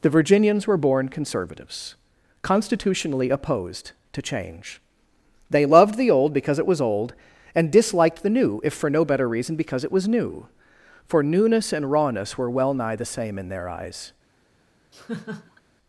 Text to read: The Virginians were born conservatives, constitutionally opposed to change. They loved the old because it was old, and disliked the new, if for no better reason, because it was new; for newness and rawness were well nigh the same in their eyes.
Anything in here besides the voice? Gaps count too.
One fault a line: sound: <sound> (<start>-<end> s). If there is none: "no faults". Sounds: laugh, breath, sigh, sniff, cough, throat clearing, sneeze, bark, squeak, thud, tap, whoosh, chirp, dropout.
sound: laugh (14.9-15.6 s)